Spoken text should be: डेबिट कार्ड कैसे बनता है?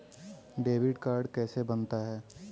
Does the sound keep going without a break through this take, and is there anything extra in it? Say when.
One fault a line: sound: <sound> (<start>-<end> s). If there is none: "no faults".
no faults